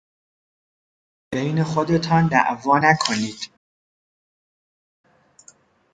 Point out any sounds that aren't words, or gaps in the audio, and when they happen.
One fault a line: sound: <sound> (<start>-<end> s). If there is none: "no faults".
no faults